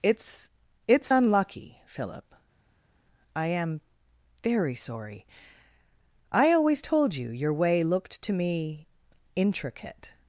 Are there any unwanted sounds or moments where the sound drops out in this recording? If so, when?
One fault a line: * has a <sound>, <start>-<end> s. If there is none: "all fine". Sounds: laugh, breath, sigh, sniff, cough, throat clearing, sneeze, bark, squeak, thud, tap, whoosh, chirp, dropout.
all fine